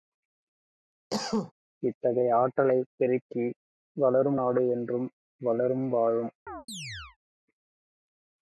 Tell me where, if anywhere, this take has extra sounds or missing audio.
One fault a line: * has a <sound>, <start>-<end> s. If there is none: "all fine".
* has a cough, 1.1-1.5 s
* has a chirp, 6.5-7.2 s